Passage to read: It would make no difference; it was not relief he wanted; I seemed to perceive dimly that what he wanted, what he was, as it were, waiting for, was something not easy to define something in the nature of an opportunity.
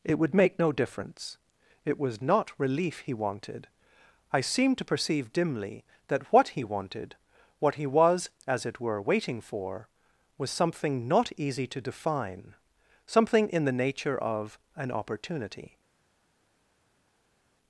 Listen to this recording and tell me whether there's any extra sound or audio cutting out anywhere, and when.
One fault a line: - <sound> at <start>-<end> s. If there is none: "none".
none